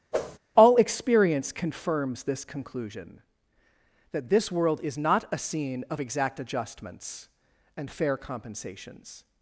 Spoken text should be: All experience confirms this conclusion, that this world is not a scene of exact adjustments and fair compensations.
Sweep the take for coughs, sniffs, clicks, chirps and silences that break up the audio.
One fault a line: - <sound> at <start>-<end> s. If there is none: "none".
- whoosh at 0.1-0.4 s